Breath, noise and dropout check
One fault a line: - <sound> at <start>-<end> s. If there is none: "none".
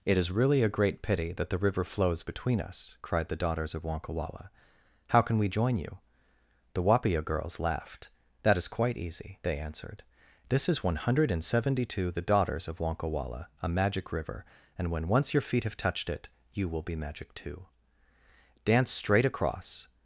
none